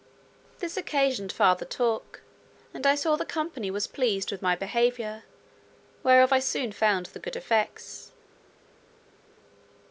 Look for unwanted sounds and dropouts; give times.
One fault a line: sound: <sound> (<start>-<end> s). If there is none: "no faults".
no faults